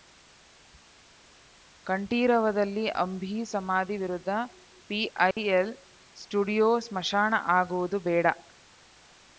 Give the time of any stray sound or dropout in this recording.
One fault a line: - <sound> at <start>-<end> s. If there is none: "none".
- dropout at 5.3-5.4 s